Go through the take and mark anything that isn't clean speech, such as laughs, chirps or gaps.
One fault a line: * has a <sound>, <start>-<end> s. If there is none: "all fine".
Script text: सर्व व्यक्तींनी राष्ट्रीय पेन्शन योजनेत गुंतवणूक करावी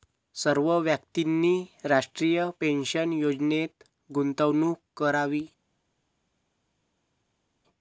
all fine